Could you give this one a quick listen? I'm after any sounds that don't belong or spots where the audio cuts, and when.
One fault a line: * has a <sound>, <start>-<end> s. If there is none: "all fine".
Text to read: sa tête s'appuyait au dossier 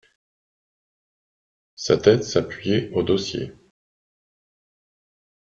all fine